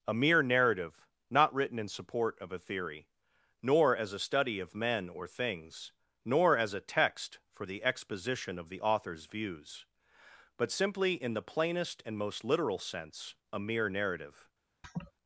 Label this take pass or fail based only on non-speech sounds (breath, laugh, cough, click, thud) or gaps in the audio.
fail